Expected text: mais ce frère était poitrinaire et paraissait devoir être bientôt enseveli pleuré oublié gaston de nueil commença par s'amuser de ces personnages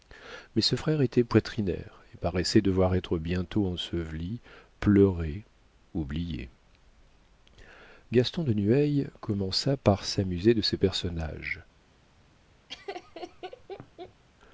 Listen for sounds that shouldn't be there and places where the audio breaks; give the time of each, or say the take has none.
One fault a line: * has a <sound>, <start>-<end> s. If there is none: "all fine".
* has a laugh, 12.7-14.2 s